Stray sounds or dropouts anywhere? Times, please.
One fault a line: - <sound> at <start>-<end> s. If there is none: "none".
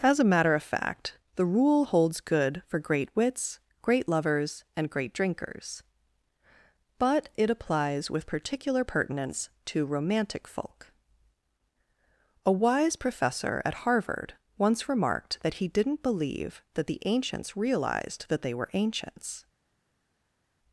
none